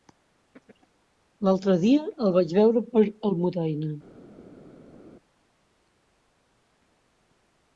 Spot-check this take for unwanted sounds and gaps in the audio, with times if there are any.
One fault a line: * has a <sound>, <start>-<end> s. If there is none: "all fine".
all fine